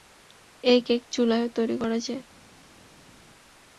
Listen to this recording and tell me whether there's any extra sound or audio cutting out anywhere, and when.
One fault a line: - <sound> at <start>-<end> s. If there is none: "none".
none